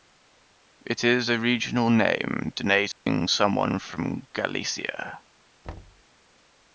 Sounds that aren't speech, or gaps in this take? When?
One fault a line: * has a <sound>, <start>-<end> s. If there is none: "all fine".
* has a dropout, 2.9-3.1 s
* has a thud, 5.6-6.0 s